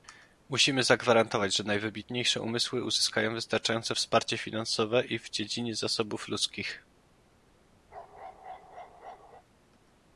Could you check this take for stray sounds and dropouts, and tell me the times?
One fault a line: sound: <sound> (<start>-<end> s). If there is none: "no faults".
sound: bark (7.9-9.4 s)